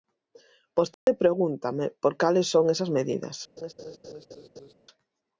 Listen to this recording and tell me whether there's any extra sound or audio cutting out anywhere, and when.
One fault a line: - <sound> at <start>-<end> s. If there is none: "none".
- dropout at 0.9-1.1 s
- laugh at 3.6-4.7 s